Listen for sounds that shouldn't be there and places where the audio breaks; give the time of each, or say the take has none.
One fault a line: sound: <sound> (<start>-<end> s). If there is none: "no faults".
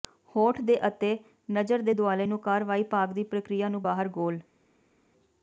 no faults